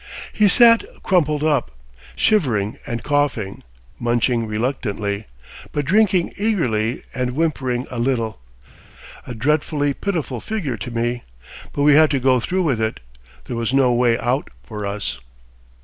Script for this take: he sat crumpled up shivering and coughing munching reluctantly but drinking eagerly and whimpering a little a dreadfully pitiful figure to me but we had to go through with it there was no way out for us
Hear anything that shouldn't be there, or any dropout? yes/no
no